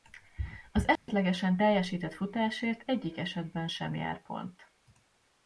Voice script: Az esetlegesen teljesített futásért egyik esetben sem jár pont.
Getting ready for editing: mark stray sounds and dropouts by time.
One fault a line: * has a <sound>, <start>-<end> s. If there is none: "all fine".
* has a dropout, 1.0-1.1 s